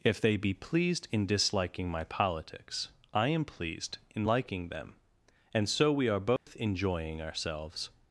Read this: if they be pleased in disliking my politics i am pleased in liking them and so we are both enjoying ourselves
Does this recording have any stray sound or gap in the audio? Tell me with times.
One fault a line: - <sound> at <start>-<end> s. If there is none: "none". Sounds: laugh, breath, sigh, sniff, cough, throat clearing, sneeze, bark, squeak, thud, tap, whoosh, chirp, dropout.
- dropout at 6.4-6.5 s